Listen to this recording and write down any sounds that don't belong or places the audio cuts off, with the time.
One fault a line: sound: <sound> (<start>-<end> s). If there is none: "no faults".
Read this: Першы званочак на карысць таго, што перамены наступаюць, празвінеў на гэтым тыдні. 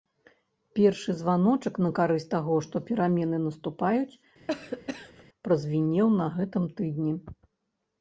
sound: cough (4.5-5.2 s)